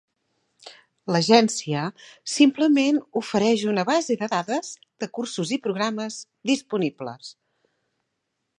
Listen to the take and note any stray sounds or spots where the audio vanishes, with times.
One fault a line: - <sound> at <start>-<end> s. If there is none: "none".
none